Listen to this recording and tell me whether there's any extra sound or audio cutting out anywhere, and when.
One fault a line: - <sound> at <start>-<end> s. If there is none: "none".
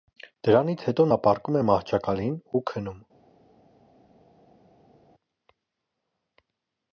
none